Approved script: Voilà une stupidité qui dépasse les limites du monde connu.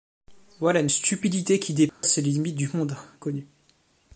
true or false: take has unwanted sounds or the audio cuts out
true